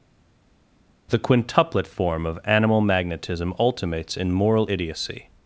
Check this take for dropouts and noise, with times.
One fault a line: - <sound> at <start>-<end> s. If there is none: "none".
none